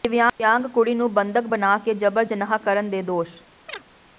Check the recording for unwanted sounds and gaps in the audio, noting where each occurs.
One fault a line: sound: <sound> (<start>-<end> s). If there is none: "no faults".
sound: chirp (3.7-3.8 s)